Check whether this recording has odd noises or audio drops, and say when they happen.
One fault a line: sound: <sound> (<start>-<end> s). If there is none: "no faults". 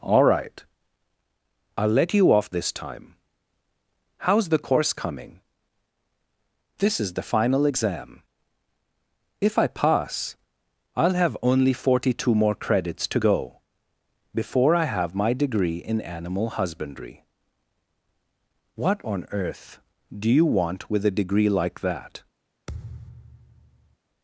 sound: thud (22.7-24.0 s)